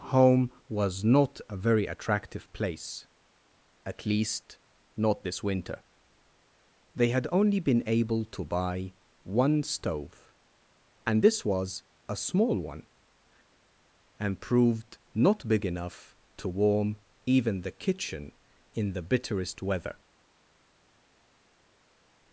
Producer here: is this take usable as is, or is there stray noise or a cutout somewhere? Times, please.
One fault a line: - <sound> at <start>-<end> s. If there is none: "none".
none